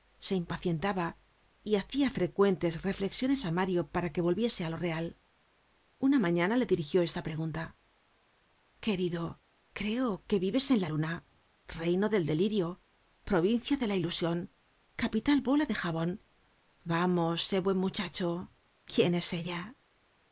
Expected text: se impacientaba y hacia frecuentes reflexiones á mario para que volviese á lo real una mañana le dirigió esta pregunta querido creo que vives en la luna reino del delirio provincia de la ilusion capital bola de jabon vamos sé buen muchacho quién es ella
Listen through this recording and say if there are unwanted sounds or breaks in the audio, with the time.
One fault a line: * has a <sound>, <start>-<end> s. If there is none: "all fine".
all fine